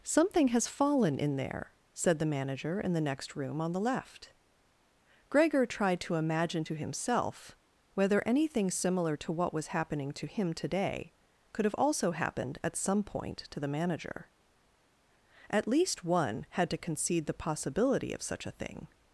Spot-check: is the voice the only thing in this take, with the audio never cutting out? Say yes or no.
yes